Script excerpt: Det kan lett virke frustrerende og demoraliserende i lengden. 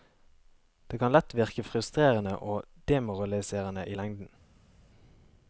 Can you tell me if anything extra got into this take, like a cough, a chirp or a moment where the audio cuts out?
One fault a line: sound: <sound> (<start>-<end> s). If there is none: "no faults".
no faults